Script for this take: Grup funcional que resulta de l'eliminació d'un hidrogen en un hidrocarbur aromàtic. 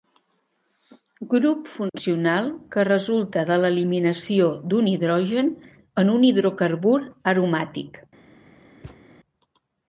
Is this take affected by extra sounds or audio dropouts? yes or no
yes